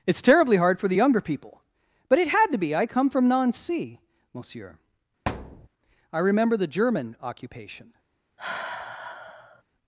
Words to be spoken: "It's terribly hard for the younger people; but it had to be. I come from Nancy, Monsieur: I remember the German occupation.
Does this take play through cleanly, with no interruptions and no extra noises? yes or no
no